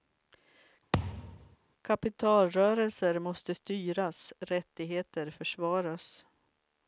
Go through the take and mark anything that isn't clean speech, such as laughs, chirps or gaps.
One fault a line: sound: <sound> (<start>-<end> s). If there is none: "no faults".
sound: thud (0.9-1.6 s)